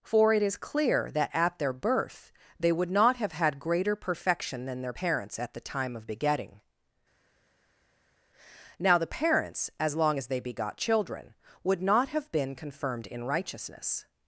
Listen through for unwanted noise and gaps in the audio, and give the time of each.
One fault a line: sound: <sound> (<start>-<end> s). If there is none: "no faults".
no faults